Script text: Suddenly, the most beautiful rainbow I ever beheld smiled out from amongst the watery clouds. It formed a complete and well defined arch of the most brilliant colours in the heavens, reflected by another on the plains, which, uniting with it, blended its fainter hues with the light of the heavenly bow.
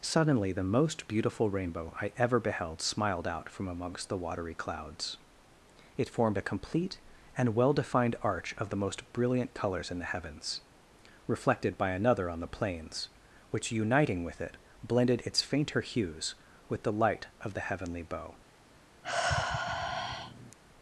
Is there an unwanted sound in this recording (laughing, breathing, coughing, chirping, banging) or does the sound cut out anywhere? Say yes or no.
yes